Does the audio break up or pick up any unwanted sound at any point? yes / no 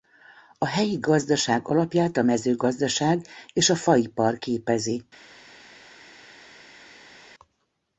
no